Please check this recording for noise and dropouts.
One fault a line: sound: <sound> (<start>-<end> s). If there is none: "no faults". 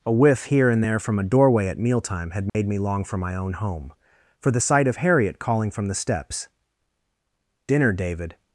sound: dropout (2.5-2.5 s)